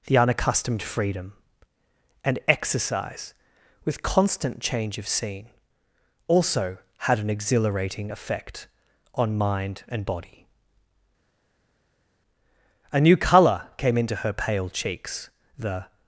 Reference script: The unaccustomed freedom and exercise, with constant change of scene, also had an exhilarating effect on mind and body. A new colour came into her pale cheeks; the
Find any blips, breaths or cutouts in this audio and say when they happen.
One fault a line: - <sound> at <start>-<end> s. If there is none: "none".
none